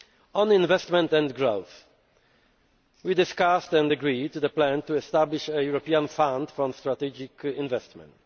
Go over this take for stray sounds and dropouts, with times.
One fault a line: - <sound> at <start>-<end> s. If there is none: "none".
none